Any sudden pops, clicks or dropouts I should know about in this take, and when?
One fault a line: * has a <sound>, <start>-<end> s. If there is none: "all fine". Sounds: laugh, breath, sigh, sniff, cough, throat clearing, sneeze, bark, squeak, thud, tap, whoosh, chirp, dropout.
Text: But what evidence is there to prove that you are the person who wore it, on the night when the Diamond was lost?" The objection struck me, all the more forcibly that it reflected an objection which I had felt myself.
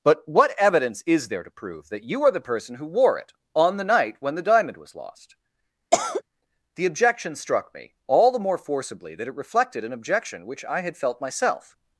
* has a cough, 5.9-6.2 s